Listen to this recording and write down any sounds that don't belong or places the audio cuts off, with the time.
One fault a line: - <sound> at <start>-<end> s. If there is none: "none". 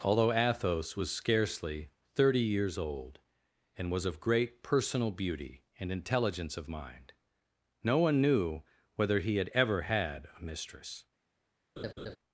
- laugh at 11.8-12.2 s